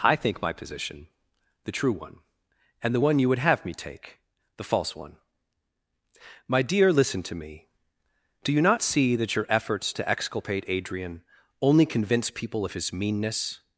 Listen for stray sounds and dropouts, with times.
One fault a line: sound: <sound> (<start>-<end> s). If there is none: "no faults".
no faults